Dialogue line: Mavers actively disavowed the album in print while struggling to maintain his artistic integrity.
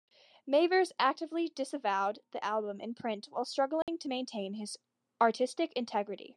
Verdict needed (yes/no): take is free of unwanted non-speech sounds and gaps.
no